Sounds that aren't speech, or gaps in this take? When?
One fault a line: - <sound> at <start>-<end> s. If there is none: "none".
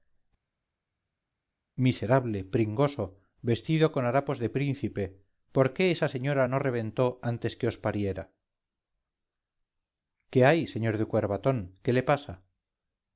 none